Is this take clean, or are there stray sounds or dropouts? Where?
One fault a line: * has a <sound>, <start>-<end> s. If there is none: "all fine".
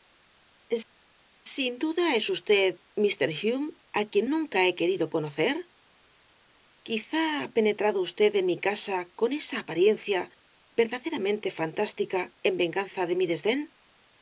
all fine